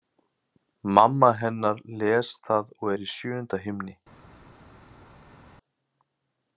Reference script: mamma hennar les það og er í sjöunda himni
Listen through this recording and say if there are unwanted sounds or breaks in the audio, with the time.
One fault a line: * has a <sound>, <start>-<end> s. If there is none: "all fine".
all fine